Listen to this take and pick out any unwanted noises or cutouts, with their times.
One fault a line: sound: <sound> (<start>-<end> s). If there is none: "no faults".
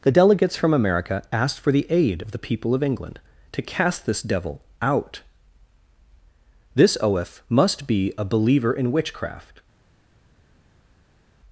no faults